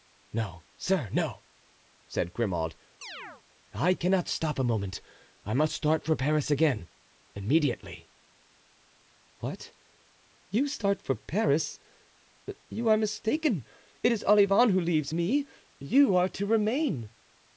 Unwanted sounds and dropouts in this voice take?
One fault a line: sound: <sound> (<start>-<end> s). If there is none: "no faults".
sound: chirp (3.0-3.4 s)